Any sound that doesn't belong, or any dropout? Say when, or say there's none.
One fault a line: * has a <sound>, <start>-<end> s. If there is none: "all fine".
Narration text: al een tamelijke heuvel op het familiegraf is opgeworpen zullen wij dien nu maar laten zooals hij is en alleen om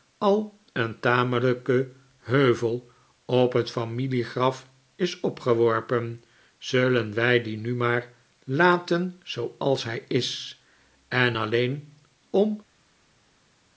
all fine